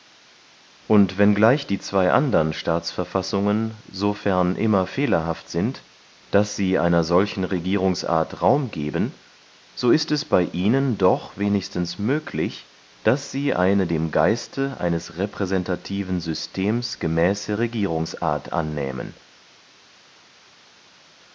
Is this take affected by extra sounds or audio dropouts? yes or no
no